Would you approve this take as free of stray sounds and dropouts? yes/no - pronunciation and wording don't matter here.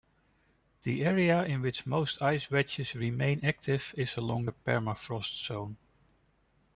yes